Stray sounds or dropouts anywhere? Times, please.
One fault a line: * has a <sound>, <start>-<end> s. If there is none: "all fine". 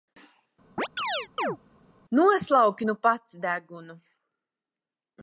* has a chirp, 0.8-1.6 s